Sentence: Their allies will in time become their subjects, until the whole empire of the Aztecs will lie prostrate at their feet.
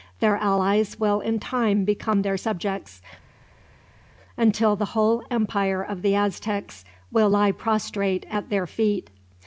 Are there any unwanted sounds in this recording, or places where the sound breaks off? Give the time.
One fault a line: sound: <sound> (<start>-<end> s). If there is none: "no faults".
no faults